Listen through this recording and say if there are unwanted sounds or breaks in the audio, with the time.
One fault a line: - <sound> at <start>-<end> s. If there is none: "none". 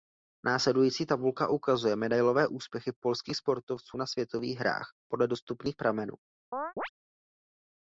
- chirp at 6.5-6.9 s